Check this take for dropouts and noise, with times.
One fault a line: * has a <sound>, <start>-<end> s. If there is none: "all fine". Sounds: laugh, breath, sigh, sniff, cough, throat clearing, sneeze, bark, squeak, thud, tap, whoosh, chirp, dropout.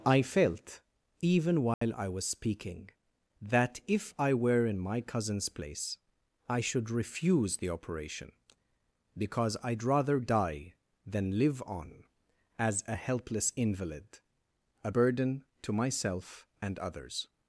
* has a dropout, 1.7-1.8 s